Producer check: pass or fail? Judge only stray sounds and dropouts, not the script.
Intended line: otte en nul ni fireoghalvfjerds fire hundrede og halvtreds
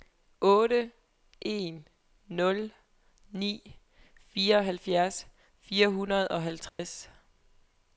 fail